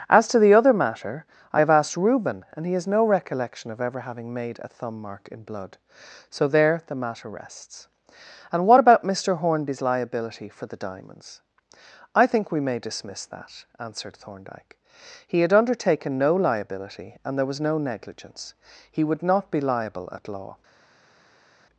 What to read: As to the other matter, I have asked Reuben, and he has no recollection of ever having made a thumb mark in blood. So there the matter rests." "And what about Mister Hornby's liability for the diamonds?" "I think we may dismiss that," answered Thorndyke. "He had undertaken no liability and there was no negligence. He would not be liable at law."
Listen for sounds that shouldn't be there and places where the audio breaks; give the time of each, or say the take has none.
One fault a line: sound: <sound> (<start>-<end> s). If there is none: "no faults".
no faults